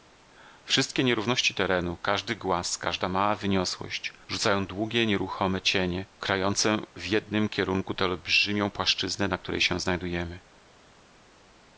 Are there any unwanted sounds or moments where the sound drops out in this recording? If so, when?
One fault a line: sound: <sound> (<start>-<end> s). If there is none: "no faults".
no faults